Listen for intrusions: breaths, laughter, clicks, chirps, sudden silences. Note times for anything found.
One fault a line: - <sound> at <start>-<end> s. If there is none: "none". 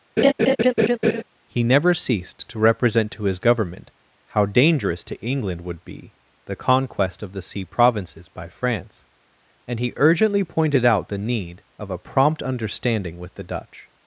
- laugh at 0.2-1.2 s